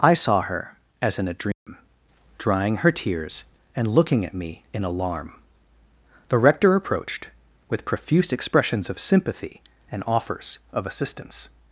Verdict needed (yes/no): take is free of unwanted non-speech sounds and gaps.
no